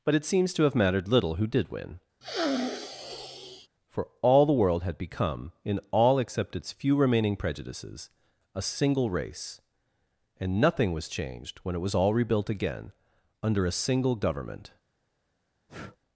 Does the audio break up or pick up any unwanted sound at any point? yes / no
yes